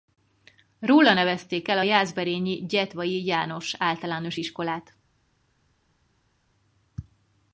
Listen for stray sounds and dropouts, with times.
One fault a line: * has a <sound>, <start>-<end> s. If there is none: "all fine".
all fine